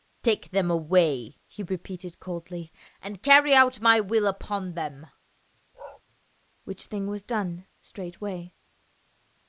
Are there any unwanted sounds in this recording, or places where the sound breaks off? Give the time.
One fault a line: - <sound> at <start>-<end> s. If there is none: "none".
- bark at 5.7-6.0 s